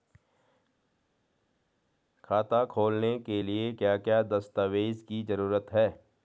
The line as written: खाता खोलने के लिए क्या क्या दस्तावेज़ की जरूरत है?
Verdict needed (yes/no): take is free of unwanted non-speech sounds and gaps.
yes